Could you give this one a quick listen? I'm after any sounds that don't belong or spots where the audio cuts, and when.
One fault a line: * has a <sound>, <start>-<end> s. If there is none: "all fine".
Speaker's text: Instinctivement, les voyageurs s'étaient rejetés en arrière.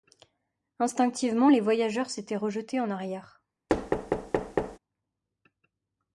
* has a thud, 3.7-4.8 s